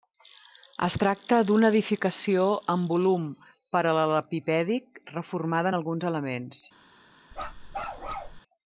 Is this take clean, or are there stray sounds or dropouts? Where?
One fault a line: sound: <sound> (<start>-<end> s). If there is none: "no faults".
sound: bark (7.3-8.4 s)